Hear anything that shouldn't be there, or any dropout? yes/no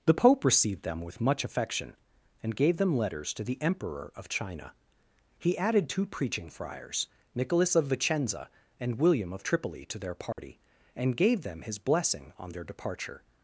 yes